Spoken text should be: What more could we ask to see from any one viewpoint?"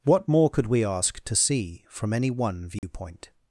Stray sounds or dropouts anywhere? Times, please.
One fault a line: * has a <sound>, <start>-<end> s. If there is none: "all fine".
* has a dropout, 2.8-2.8 s